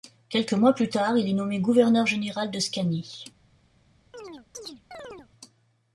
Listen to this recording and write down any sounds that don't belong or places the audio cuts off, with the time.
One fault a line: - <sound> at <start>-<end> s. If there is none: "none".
- chirp at 4.1-5.3 s